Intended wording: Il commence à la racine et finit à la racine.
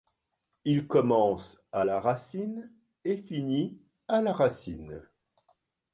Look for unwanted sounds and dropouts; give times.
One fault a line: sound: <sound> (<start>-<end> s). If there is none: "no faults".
no faults